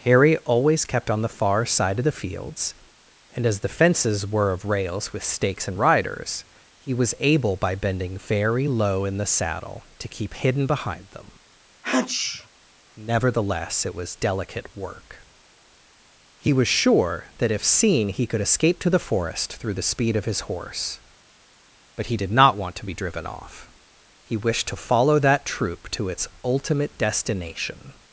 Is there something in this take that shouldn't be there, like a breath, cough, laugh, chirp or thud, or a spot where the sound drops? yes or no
yes